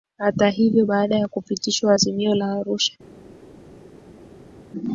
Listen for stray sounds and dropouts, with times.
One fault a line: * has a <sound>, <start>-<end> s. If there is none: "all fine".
all fine